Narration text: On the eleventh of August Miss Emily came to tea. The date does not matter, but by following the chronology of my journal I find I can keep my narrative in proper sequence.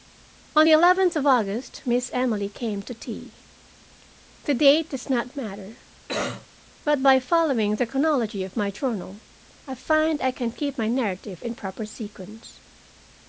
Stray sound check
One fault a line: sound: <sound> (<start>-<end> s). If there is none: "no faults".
sound: cough (6.1-6.5 s)